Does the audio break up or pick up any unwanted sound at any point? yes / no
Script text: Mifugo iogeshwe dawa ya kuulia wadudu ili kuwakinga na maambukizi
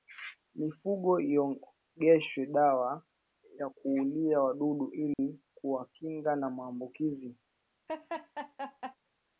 yes